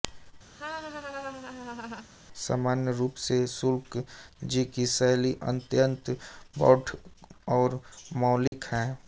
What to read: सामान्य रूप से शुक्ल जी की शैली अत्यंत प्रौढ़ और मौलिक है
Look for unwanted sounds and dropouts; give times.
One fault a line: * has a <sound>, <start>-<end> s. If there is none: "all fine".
* has a laugh, 0.5-2.1 s
* has a dropout, 8.5-8.5 s